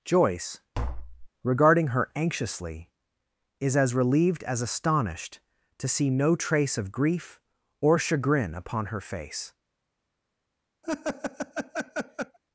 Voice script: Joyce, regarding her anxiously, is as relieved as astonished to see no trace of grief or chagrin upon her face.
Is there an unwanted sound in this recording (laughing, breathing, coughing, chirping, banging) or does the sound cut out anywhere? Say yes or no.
yes